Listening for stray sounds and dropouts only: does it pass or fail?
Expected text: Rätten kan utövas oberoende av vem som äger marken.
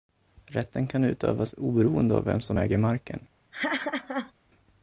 fail